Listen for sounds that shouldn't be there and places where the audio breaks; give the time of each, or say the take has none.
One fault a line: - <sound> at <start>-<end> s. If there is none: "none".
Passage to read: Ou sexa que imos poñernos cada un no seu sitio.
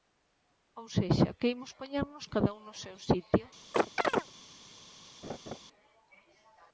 - chirp at 3.7-4.3 s
- laugh at 5.2-5.6 s